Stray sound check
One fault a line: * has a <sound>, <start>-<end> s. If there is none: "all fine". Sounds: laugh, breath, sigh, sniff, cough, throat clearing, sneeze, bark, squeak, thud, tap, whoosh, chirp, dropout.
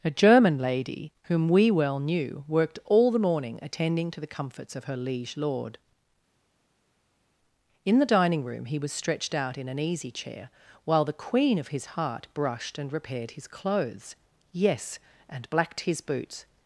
all fine